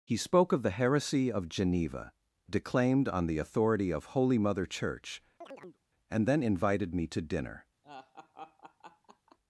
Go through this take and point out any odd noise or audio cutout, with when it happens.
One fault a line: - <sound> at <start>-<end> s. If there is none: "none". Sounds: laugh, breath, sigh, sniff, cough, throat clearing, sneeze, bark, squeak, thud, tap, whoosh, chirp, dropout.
- chirp at 5.4-5.8 s
- laugh at 7.8-9.4 s